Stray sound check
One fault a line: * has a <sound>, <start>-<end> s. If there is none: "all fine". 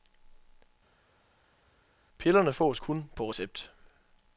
all fine